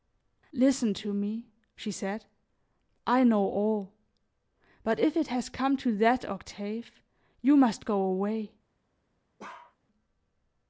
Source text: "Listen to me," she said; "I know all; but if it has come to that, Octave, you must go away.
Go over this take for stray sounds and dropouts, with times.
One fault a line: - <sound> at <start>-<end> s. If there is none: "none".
- bark at 9.4-9.8 s